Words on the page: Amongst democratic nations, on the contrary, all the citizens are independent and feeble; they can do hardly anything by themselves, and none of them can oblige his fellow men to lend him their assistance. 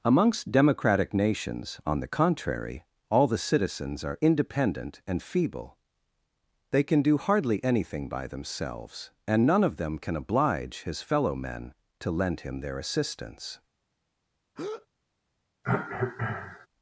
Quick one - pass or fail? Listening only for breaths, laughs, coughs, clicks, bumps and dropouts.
fail